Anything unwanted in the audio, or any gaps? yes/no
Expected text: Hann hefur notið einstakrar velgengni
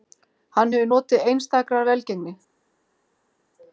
no